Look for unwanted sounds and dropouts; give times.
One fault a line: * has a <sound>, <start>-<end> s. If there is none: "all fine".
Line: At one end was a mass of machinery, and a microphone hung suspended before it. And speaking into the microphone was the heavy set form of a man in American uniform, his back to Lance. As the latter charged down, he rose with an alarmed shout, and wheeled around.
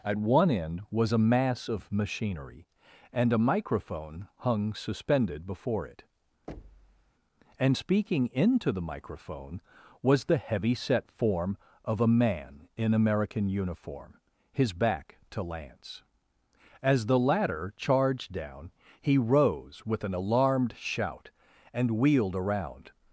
* has a thud, 6.5-7.1 s